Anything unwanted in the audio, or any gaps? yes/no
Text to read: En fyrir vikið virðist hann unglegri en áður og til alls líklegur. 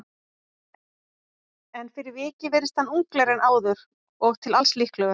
no